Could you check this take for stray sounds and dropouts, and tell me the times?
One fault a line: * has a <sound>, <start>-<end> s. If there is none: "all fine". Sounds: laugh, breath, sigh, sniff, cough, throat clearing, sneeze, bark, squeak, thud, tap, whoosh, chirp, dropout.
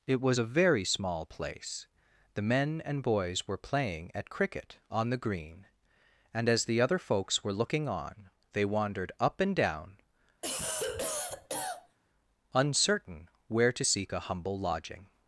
* has a cough, 10.4-12.0 s